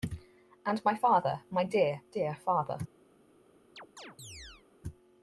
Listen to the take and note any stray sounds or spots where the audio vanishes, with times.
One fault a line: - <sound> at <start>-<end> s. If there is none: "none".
- chirp at 3.8-4.7 s